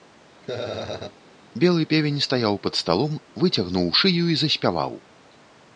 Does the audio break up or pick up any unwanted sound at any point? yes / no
yes